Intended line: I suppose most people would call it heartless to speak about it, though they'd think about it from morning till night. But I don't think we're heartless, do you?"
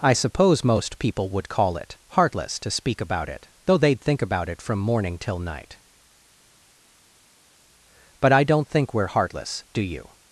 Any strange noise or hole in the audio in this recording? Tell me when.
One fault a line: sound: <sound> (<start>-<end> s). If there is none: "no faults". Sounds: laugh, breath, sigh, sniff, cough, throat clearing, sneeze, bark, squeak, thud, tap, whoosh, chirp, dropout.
no faults